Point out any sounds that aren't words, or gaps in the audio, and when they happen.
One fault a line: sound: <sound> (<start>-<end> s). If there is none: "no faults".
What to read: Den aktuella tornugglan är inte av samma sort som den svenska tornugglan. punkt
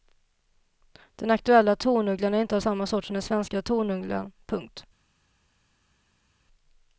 no faults